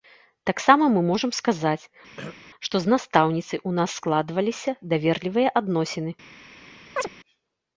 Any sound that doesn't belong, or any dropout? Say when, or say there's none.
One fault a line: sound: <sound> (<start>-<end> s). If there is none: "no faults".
sound: throat clearing (2.2-2.4 s)
sound: chirp (7.0-7.1 s)